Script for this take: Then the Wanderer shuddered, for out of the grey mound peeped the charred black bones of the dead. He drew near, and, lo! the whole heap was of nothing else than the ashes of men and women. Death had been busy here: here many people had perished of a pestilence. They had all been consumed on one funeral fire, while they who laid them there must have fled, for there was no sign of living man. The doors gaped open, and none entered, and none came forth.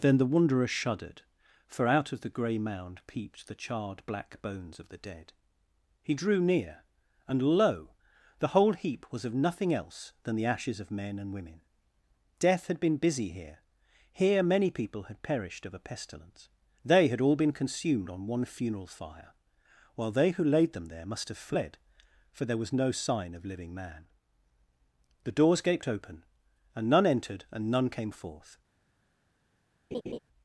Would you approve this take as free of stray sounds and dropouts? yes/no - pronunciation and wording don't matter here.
no